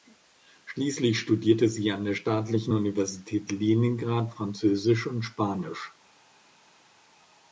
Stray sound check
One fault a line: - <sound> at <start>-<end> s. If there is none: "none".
none